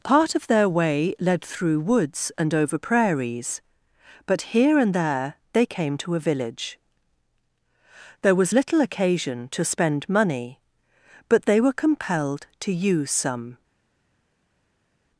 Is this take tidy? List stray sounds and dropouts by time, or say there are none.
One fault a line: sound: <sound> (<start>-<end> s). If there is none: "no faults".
no faults